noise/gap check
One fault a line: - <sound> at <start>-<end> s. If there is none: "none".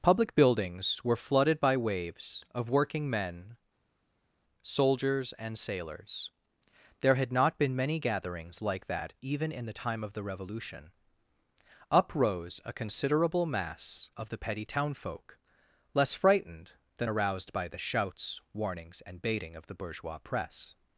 none